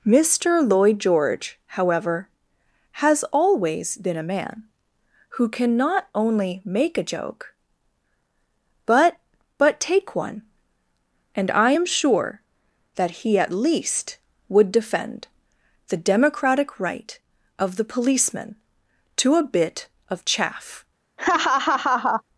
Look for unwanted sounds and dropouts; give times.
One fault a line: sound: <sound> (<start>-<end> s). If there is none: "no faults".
sound: laugh (21.2-22.2 s)